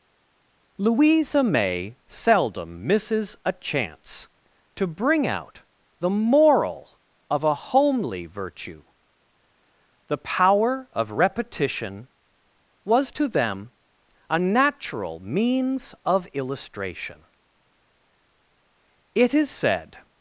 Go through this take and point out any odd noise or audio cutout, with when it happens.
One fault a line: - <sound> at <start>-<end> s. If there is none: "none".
none